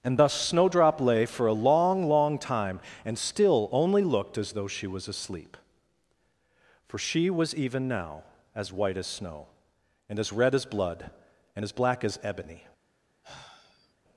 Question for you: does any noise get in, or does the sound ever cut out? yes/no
yes